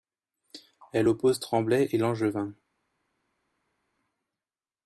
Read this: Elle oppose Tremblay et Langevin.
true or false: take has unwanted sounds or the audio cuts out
false